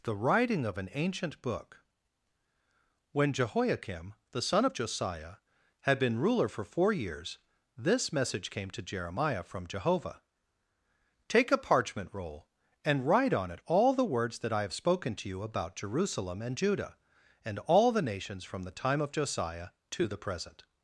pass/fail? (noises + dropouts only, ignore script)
pass